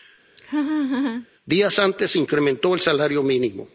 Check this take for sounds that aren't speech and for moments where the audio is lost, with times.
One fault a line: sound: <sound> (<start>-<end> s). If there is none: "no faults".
sound: laugh (0.4-1.3 s)